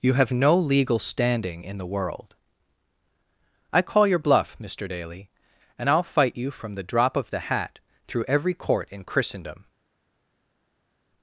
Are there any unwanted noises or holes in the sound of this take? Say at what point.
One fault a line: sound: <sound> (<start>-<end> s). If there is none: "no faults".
no faults